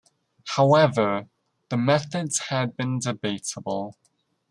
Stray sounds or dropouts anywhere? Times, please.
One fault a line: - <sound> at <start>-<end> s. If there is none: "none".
none